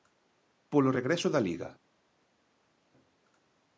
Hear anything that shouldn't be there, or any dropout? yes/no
no